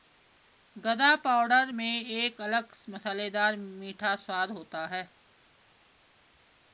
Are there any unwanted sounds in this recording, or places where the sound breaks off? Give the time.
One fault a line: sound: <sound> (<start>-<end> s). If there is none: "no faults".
no faults